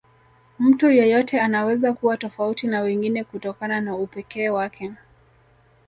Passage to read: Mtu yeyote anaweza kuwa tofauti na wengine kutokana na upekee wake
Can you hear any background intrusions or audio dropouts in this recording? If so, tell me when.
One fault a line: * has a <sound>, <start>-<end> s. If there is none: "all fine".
all fine